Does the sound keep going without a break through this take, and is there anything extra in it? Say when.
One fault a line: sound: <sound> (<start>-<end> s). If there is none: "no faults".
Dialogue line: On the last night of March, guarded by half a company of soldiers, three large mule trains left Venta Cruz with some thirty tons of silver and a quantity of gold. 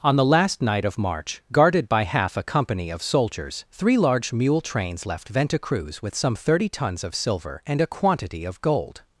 no faults